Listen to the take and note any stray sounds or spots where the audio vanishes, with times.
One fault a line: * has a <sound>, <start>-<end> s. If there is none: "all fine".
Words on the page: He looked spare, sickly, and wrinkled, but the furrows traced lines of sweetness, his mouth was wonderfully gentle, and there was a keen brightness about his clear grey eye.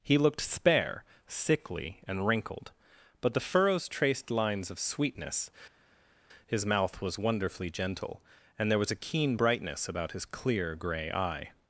all fine